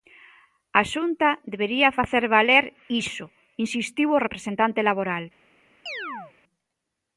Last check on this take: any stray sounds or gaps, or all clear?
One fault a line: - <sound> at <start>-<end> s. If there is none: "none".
- chirp at 5.9-6.3 s